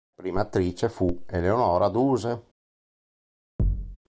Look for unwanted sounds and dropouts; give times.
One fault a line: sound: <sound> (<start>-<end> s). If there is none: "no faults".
sound: thud (3.6-4.0 s)